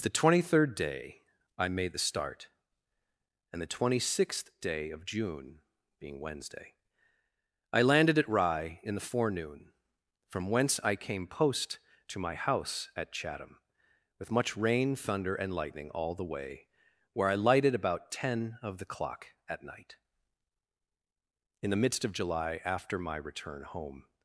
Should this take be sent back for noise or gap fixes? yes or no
no